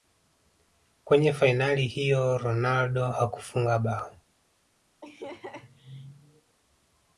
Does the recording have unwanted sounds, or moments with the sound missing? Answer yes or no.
yes